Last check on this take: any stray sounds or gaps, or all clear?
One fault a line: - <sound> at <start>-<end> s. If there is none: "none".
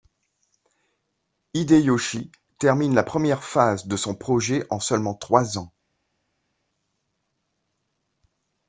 none